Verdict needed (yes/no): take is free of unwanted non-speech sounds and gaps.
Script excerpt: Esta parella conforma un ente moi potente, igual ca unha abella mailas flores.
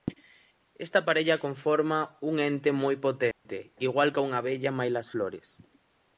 no